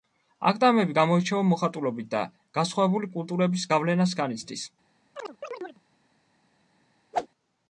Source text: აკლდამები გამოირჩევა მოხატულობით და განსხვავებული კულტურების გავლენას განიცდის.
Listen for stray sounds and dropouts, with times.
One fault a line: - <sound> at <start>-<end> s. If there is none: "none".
- chirp at 5.2-5.8 s
- whoosh at 7.1-7.3 s